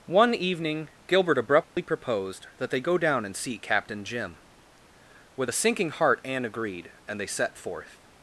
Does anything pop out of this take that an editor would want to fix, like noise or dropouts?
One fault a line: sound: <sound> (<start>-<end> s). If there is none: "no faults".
sound: dropout (1.6-1.8 s)